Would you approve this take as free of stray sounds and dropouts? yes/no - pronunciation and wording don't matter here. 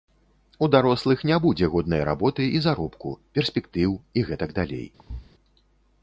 no